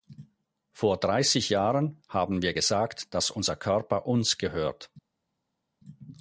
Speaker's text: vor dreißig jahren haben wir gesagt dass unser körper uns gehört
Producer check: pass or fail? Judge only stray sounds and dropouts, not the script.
pass